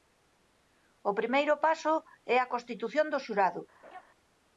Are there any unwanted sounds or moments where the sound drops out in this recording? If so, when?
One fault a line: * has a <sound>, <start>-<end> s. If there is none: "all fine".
* has a laugh, 3.8-4.0 s